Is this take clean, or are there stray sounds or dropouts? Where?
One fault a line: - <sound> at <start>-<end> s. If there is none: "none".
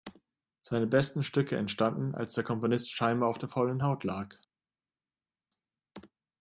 none